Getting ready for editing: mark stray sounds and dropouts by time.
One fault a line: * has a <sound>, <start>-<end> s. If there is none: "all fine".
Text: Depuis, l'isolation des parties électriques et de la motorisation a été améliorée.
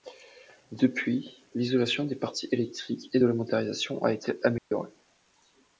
* has a dropout, 4.6-4.7 s